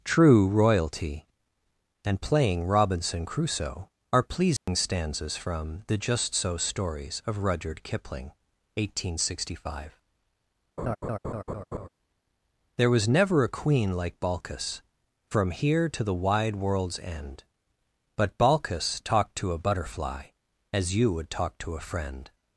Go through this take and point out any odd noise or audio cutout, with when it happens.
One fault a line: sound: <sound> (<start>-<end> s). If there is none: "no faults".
sound: dropout (4.6-4.7 s)
sound: laugh (10.8-11.9 s)